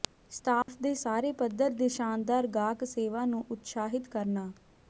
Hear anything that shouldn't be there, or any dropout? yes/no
yes